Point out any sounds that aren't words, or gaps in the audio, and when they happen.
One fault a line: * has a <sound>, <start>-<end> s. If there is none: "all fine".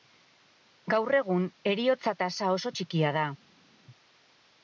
all fine